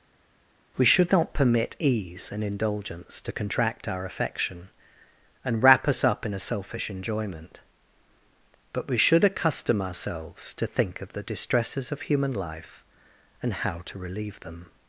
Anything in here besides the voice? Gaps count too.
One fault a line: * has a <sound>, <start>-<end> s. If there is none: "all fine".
all fine